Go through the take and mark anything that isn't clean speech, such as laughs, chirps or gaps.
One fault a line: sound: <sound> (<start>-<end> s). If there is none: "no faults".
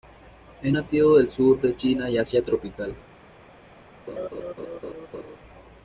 sound: laugh (4.1-5.4 s)